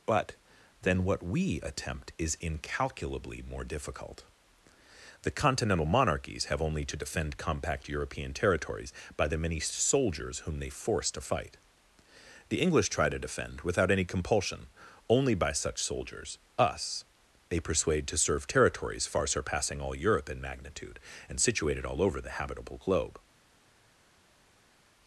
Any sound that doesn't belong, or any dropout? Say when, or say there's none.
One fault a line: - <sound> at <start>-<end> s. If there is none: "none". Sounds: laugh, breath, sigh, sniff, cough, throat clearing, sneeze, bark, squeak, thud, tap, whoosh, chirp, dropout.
none